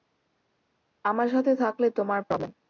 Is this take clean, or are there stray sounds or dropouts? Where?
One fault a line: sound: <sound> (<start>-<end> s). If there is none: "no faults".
no faults